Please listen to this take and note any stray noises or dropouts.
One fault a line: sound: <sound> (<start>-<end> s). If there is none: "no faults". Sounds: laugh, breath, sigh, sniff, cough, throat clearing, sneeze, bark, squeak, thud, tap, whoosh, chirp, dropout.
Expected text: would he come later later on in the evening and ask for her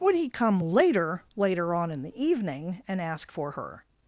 no faults